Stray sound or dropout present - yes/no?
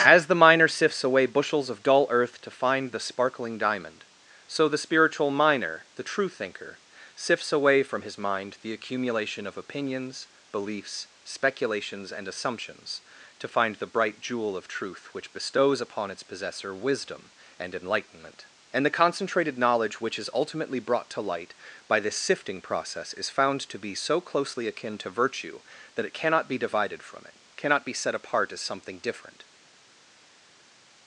no